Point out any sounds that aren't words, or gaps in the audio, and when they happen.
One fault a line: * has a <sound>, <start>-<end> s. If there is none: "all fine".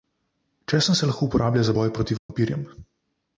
* has a dropout, 2.2-2.3 s